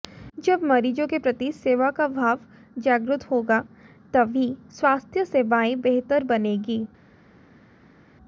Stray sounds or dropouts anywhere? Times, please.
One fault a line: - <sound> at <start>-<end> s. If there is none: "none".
none